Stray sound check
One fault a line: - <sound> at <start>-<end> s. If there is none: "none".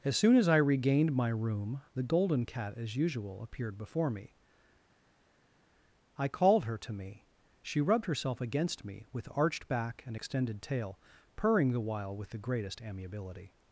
none